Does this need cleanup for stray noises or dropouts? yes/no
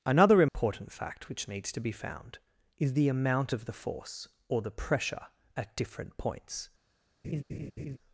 yes